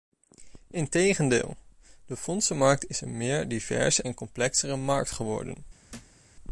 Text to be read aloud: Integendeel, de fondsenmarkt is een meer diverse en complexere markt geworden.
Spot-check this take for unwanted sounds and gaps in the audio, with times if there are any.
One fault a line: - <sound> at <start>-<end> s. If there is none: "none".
- thud at 5.9-6.2 s